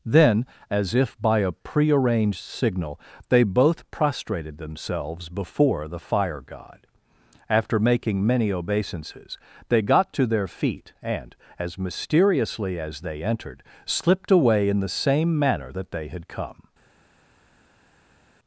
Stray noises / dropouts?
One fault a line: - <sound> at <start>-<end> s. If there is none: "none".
none